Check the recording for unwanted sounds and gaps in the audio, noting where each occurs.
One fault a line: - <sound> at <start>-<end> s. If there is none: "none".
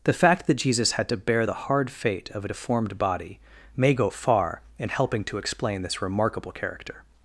none